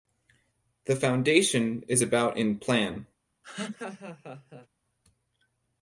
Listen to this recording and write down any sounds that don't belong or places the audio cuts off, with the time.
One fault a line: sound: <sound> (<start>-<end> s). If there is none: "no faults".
sound: laugh (3.4-4.7 s)